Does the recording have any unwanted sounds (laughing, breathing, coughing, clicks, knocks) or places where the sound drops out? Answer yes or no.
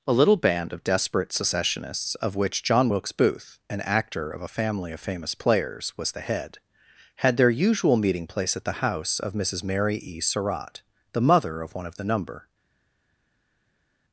no